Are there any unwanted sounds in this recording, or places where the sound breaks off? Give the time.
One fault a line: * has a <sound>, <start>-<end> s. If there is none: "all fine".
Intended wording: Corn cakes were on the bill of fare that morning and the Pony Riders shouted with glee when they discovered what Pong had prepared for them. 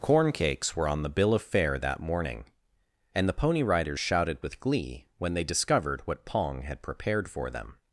all fine